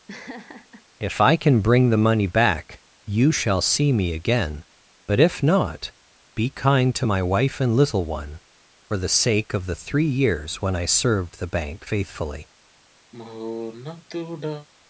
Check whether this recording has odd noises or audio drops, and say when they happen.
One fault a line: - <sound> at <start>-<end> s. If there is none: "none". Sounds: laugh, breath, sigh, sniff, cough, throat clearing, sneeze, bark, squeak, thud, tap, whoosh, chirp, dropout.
- laugh at 0.1-0.8 s
- sigh at 13.1-14.7 s